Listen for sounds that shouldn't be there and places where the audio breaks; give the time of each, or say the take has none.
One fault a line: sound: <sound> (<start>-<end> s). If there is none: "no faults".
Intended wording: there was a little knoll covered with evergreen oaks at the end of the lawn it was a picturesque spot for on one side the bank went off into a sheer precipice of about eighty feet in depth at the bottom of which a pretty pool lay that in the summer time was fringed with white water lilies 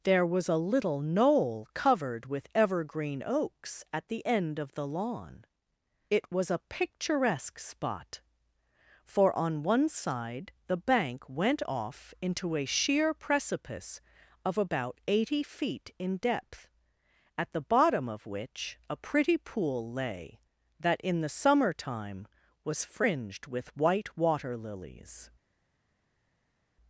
no faults